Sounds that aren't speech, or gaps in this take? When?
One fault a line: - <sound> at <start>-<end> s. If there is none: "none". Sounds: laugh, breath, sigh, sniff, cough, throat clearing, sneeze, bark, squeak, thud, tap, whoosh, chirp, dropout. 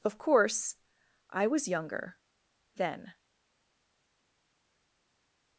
none